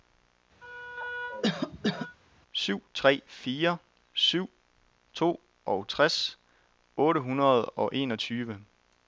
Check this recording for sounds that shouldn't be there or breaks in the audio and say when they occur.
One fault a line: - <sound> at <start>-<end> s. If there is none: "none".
- cough at 0.6-2.2 s